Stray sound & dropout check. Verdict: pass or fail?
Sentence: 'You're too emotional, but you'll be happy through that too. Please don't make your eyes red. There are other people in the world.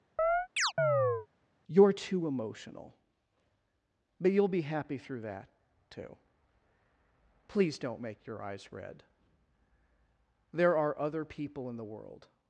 fail